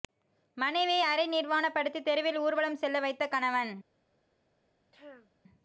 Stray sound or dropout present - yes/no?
yes